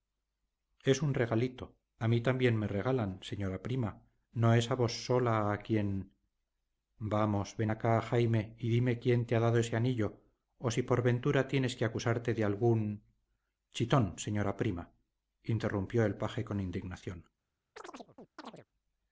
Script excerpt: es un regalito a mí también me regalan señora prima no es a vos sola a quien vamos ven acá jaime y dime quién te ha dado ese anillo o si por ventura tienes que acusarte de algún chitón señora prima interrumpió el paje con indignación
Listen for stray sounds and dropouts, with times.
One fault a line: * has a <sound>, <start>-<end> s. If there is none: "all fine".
* has a chirp, 17.8-18.7 s